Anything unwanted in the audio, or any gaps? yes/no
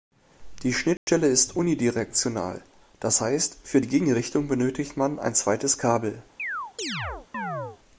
yes